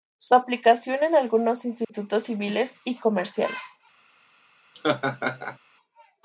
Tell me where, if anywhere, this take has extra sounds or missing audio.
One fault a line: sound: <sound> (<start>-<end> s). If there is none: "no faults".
sound: dropout (1.8-1.9 s)
sound: laugh (4.7-5.6 s)